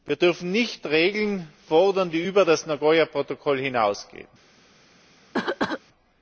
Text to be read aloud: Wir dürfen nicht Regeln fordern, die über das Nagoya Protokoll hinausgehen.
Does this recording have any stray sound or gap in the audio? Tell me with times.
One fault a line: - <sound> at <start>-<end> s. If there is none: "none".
- cough at 5.3-5.8 s